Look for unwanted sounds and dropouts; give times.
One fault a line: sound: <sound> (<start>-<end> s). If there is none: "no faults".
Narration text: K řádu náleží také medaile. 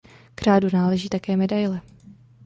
no faults